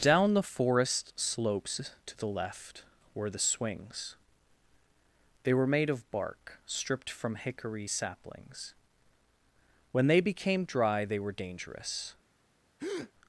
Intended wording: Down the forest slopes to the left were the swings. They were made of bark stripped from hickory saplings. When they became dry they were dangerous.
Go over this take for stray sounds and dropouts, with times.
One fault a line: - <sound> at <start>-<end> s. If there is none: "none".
- breath at 12.8-13.1 s